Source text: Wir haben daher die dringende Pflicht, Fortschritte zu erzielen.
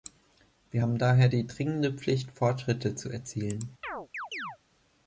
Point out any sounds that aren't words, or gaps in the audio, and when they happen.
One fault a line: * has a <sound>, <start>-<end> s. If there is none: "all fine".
* has a chirp, 3.8-4.6 s